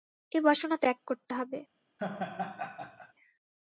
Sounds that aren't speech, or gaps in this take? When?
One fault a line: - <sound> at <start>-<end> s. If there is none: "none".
- laugh at 2.0-3.1 s